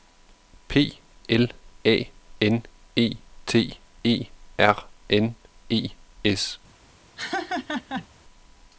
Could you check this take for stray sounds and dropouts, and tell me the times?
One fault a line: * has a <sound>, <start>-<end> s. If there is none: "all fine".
* has a laugh, 7.2-8.1 s